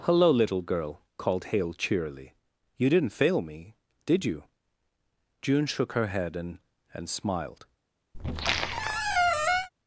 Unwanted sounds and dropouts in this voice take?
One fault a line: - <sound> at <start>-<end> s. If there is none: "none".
- squeak at 8.1-9.7 s